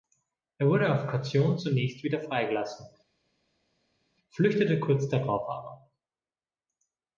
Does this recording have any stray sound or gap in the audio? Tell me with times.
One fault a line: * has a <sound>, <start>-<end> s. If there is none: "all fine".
all fine